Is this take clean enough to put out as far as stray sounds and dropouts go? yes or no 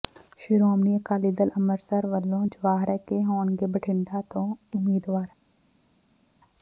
yes